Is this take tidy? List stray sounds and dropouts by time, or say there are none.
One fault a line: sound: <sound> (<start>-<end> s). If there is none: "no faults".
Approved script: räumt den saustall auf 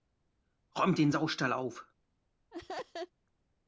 sound: laugh (2.5-3.1 s)